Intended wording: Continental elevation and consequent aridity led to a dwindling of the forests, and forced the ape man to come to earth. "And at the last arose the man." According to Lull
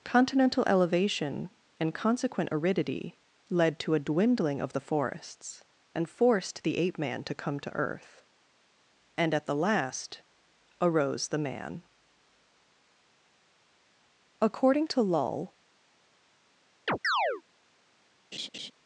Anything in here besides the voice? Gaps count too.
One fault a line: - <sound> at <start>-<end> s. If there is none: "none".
- chirp at 16.9-17.4 s
- laugh at 18.3-18.7 s